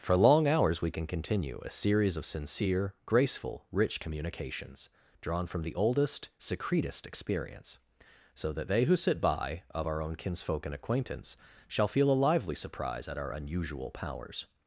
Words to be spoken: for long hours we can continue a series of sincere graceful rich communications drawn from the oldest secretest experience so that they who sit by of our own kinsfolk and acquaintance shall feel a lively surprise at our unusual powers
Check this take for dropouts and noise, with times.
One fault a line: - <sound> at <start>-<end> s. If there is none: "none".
none